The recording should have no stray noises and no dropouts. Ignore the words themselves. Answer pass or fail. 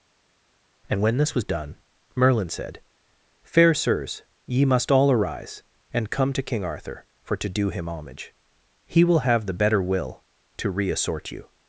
pass